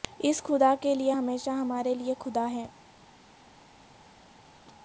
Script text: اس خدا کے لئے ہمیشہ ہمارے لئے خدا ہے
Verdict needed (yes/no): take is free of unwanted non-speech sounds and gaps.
yes